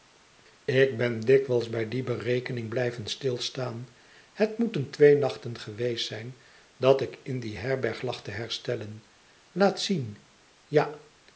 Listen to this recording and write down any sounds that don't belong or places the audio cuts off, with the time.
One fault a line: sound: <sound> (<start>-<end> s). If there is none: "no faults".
no faults